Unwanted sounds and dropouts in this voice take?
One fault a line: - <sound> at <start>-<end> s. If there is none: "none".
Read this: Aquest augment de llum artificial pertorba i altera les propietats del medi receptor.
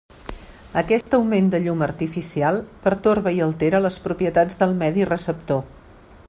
- dropout at 1.0-1.1 s